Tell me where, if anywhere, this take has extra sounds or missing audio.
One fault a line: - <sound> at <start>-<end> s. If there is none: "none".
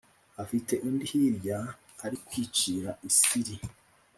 none